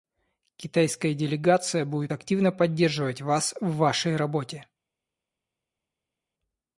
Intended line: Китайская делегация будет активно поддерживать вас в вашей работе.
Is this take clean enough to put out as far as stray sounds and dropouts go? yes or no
yes